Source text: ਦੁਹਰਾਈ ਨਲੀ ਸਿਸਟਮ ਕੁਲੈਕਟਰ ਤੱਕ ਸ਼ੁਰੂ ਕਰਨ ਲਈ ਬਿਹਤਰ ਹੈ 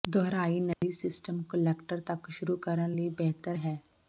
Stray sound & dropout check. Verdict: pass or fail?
fail